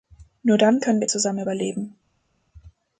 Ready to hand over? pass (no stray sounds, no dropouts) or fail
pass